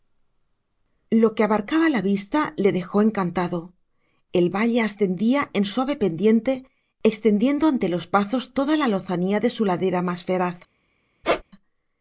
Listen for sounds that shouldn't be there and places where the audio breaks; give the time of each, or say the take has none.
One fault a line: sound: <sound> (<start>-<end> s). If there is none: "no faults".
sound: squeak (11.2-11.4 s)